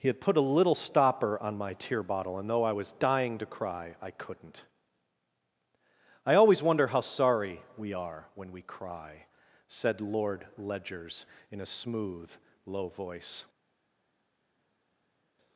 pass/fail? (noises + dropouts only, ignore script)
pass